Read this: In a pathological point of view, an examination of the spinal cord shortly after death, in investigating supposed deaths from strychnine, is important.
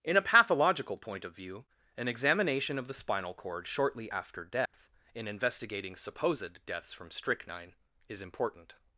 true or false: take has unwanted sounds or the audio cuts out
true